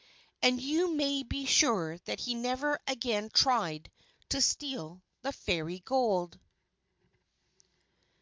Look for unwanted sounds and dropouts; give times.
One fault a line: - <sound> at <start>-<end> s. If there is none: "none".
none